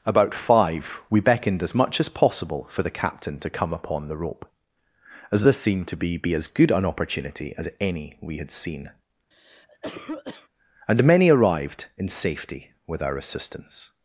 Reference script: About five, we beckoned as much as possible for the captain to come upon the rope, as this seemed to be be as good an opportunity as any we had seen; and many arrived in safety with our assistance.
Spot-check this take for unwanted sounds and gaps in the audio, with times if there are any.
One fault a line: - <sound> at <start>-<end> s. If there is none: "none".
- cough at 9.3-10.5 s